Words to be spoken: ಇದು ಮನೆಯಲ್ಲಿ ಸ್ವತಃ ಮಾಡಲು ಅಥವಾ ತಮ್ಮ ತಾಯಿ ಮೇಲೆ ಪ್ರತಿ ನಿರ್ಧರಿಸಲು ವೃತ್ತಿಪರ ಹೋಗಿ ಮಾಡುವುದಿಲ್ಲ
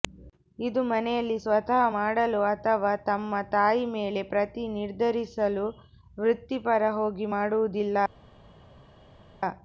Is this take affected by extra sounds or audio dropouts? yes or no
no